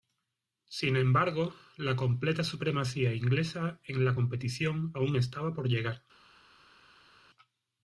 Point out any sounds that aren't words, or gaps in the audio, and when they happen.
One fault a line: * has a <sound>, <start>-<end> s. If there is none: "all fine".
all fine